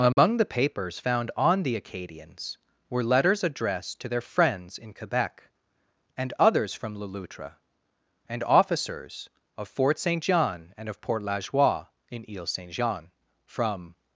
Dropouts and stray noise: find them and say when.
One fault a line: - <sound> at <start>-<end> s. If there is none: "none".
- dropout at 0.1-0.2 s